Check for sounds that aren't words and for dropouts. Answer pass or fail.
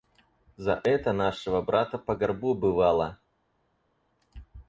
pass